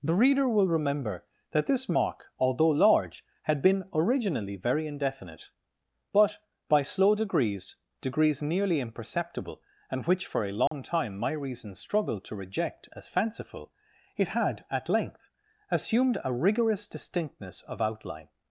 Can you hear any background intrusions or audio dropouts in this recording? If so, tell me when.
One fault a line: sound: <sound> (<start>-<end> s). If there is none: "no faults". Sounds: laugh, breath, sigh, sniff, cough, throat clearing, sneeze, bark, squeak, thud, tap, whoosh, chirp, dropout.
sound: dropout (10.7-10.7 s)